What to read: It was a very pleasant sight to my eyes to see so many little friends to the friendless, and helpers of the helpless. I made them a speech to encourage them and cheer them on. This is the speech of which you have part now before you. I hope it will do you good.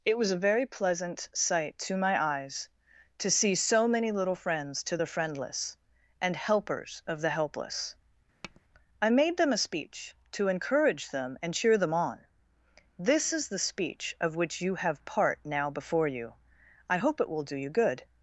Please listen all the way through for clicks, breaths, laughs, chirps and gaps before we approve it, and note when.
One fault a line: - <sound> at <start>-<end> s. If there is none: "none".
- tap at 8.4-8.6 s